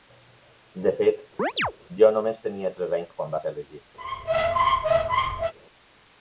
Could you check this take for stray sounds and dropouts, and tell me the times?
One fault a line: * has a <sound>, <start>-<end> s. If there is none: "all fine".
* has a chirp, 1.4-1.7 s
* has a squeak, 4.0-5.5 s